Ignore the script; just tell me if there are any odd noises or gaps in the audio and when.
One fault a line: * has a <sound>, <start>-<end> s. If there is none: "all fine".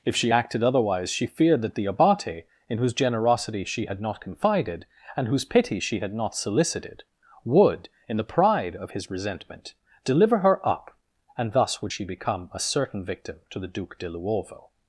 all fine